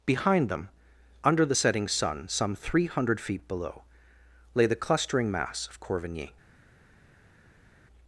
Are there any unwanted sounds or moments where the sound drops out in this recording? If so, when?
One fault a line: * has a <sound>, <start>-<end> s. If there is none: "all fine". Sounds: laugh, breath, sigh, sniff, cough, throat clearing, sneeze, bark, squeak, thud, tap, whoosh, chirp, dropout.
all fine